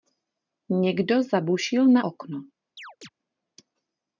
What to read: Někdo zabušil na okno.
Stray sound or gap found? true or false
true